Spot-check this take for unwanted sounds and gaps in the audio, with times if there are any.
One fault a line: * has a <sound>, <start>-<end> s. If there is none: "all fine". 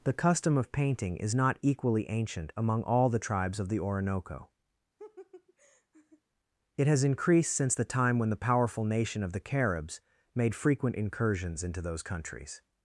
* has a laugh, 5.0-6.2 s